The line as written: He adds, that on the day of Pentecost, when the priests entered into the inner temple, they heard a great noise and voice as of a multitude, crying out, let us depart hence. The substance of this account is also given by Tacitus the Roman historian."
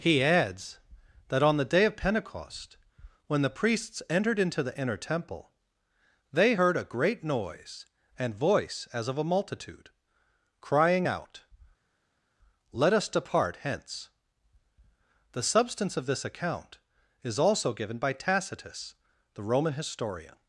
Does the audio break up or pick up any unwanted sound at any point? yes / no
no